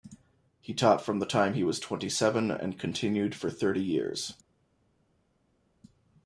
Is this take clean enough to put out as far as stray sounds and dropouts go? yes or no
yes